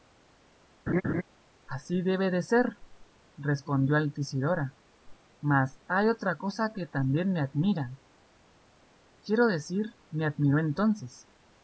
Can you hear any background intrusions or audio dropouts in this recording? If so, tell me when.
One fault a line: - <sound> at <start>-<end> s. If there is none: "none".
- laugh at 0.9-1.2 s